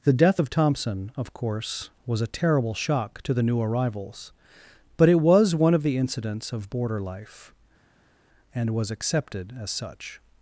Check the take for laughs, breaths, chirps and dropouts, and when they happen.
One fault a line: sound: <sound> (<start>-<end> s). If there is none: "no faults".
no faults